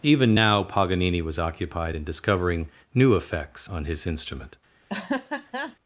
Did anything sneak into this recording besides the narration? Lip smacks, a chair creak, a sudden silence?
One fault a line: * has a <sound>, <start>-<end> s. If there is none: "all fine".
* has a laugh, 4.9-5.8 s